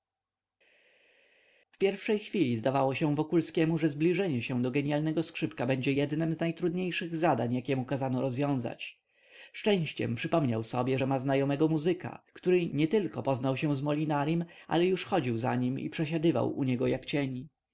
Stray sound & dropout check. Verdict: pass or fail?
pass